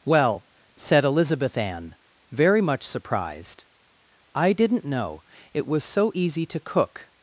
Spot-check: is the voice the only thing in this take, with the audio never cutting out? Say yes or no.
yes